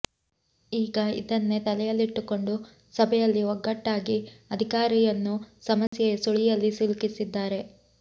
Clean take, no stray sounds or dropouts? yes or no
no